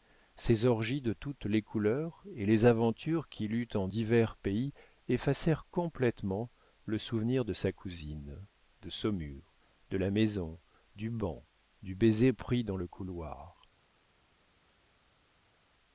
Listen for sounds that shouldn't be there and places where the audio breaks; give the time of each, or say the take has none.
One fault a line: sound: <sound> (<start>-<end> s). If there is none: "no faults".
no faults